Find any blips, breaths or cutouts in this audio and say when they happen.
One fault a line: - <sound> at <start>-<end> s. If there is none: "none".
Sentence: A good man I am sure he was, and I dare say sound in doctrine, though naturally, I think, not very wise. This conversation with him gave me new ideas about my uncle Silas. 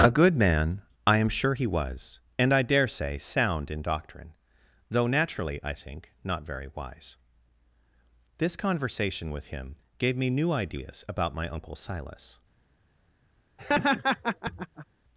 - laugh at 13.6-14.9 s